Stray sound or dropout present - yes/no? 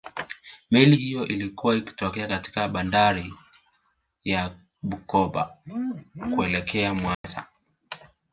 yes